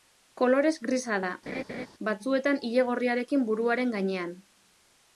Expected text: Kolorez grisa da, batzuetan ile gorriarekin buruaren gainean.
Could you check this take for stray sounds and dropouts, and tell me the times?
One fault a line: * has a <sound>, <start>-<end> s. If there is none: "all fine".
* has a laugh, 1.5-1.9 s